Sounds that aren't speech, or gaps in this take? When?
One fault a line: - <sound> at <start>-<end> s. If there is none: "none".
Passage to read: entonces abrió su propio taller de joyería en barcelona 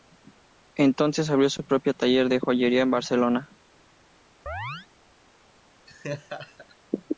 - chirp at 4.5-4.9 s
- laugh at 5.9-6.8 s